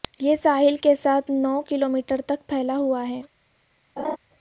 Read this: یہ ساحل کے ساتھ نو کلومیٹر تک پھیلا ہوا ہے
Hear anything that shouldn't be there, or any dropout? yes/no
yes